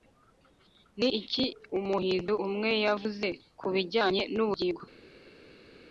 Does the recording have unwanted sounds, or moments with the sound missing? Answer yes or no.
no